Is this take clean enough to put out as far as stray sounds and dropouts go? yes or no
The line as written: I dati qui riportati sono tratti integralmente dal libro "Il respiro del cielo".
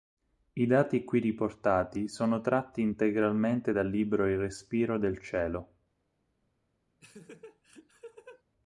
no